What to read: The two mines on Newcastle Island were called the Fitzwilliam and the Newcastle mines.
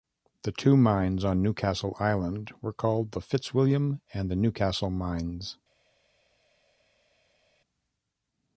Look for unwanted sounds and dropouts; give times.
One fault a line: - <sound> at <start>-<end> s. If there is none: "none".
none